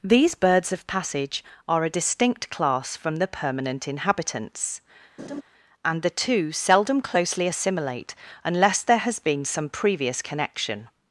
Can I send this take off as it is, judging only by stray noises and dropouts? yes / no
no